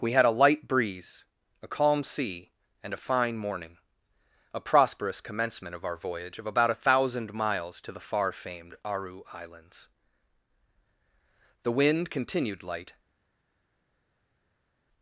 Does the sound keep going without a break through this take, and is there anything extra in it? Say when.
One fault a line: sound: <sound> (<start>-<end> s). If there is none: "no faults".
no faults